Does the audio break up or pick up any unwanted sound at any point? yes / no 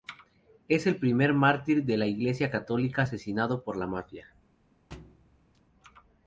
yes